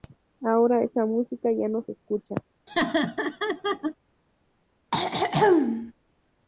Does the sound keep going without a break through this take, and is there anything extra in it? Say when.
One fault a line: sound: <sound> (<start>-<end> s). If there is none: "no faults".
sound: laugh (2.7-3.9 s)
sound: throat clearing (4.9-5.9 s)